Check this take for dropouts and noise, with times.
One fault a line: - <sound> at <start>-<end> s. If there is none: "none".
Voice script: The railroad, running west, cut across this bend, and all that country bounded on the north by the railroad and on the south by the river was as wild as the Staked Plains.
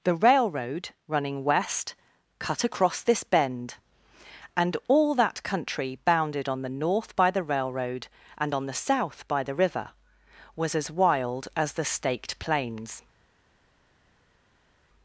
none